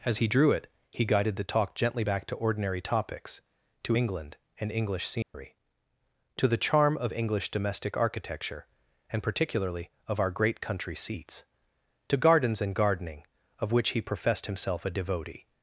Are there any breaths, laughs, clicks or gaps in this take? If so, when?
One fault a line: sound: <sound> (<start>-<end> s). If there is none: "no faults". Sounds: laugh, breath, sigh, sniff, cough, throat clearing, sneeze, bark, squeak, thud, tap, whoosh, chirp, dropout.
sound: dropout (5.2-5.3 s)